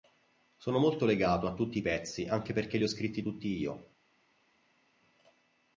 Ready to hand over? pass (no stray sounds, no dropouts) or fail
pass